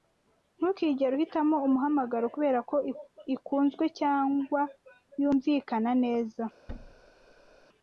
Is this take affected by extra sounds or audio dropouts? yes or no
yes